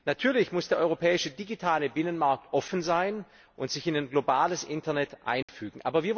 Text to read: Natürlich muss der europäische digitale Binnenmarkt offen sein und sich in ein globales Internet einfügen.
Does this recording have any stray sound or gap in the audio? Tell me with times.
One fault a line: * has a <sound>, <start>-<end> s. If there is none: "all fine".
* has a dropout, 5.4-5.5 s